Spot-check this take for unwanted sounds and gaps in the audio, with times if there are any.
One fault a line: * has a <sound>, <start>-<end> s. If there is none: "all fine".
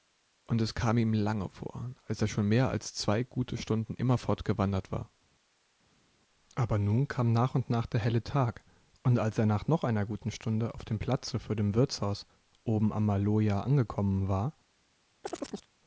* has a chirp, 15.2-15.7 s